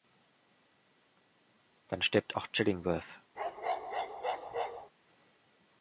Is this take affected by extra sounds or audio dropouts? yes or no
yes